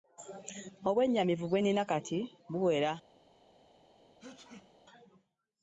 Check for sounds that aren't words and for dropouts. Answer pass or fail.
fail